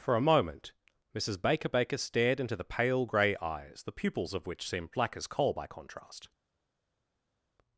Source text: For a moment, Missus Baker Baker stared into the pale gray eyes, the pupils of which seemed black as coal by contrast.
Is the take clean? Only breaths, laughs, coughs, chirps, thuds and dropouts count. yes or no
yes